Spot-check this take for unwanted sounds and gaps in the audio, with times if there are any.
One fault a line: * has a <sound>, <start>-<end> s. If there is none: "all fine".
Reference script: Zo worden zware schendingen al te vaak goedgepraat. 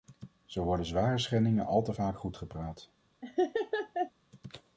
* has a laugh, 3.2-4.1 s